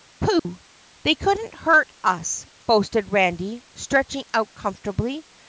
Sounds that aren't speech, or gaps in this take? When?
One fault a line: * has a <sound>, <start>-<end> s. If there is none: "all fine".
* has a dropout, 0.4-0.5 s